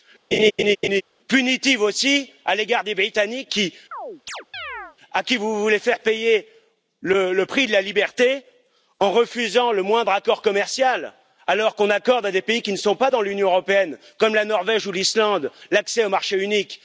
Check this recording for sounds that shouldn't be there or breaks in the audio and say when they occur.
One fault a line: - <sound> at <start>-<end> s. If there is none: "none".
- laugh at 0.3-1.0 s
- chirp at 3.9-5.0 s